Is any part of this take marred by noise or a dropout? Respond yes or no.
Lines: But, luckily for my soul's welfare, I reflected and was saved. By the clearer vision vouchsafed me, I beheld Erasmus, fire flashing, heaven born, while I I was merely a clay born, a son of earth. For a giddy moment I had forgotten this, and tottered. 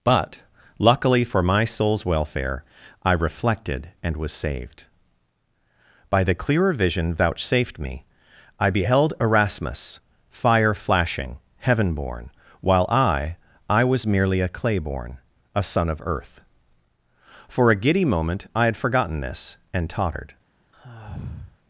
yes